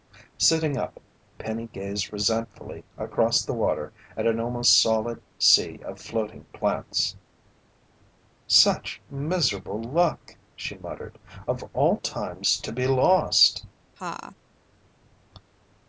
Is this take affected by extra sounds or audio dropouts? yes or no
yes